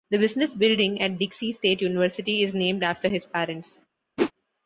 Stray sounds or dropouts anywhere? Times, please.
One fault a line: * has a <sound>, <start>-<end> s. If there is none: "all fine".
* has a whoosh, 4.2-4.3 s